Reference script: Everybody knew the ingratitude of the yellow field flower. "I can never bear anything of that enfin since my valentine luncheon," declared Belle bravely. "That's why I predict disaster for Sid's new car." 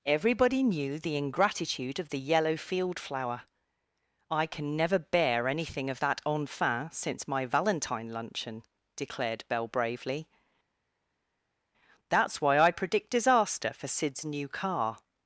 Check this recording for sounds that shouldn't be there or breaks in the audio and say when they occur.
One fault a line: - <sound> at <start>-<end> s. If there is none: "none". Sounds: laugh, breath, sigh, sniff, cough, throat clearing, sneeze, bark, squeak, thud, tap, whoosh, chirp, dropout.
none